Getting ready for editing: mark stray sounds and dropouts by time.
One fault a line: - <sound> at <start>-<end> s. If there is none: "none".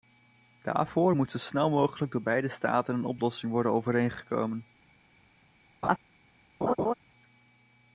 - laugh at 5.8-6.0 s
- laugh at 6.6-6.9 s